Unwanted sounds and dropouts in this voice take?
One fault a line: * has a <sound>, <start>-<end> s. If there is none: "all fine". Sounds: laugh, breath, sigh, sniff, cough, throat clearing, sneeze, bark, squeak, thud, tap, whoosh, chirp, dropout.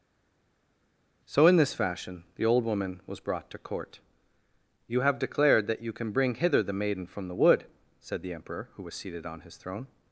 all fine